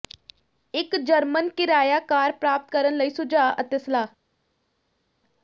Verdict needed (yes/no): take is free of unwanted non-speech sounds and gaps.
yes